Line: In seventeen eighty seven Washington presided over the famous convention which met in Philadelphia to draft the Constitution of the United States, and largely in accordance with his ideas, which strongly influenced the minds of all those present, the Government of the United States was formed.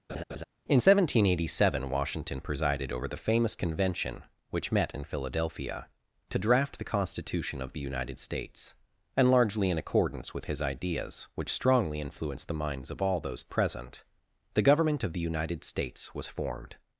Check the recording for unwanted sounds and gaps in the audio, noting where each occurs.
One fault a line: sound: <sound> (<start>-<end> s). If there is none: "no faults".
sound: laugh (0.1-0.4 s)